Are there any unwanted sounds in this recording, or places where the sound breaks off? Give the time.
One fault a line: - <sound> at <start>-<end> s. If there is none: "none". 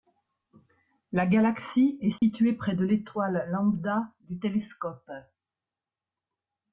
- dropout at 2.2-2.2 s